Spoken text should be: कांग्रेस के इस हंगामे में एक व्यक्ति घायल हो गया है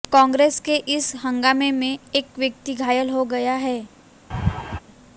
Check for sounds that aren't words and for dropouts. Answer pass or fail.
fail